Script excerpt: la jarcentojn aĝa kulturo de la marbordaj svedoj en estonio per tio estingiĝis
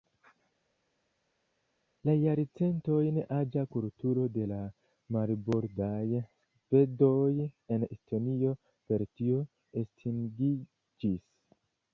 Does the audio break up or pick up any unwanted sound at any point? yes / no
no